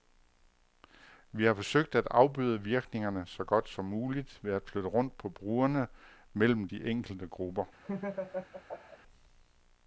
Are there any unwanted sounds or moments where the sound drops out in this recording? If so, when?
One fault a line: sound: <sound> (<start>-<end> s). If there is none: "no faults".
sound: laugh (7.8-9.0 s)